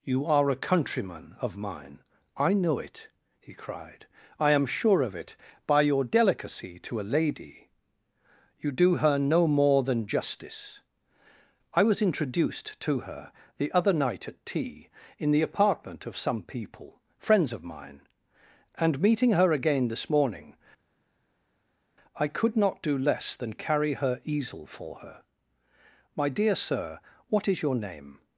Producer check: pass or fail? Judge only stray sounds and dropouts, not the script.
pass